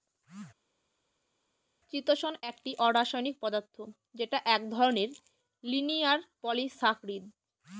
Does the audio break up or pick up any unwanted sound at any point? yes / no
no